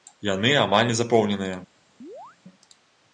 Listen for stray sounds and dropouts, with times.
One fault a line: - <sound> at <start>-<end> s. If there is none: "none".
- chirp at 2.0-2.4 s